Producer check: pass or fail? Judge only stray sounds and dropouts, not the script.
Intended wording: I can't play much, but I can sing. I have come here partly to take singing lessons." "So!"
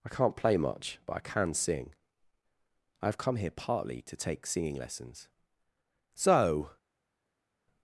pass